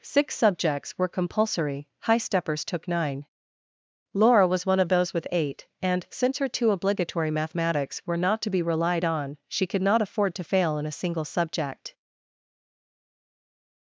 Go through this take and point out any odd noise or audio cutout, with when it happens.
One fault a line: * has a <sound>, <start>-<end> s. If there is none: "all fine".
all fine